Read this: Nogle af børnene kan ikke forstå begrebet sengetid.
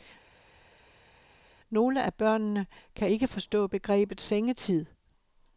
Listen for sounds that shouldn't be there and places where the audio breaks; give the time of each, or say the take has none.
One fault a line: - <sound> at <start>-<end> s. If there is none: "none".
none